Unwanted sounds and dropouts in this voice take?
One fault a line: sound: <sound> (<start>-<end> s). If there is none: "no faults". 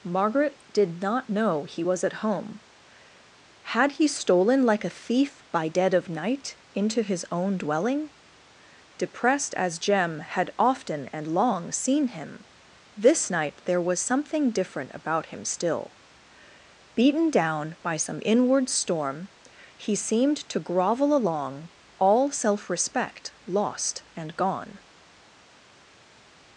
no faults